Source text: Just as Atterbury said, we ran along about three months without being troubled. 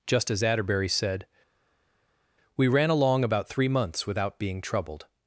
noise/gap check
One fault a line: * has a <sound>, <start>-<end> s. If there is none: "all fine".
all fine